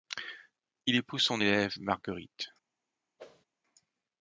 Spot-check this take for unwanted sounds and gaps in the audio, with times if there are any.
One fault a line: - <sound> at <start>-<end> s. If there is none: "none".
- whoosh at 3.2-3.5 s